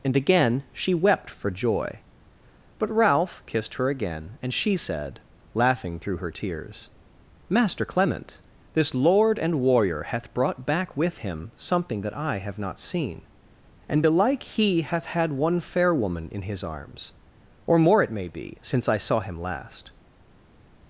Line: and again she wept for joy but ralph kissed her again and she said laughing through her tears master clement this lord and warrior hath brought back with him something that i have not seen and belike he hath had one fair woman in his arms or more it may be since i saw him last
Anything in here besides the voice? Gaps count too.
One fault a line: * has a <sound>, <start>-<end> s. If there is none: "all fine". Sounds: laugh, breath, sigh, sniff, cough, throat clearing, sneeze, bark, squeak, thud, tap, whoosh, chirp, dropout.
all fine